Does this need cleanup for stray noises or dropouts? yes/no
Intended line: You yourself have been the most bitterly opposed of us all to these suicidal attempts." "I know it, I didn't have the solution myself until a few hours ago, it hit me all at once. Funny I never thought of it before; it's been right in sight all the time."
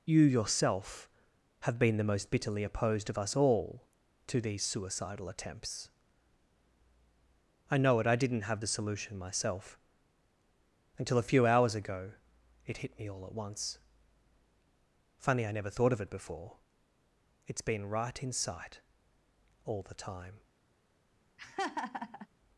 yes